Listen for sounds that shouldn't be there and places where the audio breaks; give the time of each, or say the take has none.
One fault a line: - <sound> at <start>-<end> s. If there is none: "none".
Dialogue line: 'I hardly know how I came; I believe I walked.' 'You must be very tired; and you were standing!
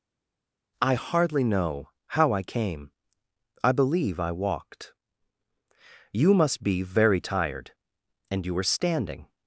none